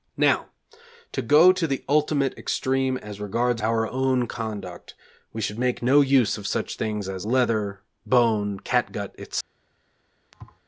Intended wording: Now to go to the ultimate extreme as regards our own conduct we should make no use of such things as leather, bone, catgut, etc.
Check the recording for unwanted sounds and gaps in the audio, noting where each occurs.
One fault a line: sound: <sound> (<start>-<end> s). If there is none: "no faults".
sound: thud (10.3-10.6 s)